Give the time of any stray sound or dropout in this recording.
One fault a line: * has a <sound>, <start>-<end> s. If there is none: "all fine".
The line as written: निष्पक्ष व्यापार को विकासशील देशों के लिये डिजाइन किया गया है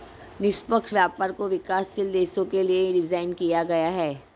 all fine